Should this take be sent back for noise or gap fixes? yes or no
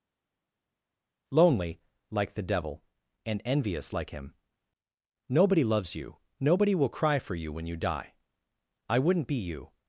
no